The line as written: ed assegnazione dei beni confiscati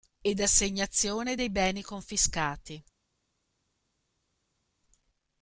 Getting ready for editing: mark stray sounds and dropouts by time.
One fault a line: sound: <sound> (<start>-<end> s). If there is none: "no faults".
no faults